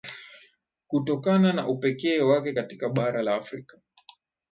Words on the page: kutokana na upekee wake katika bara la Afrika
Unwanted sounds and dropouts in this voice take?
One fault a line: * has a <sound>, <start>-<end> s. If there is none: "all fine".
all fine